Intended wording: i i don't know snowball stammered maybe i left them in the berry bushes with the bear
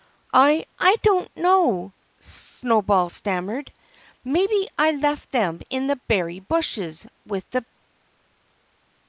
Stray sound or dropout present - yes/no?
no